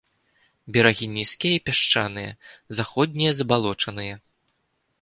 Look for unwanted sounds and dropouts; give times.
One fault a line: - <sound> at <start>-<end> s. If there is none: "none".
none